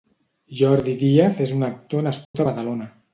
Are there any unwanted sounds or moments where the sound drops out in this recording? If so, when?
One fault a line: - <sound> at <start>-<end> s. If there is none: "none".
- dropout at 2.2-2.3 s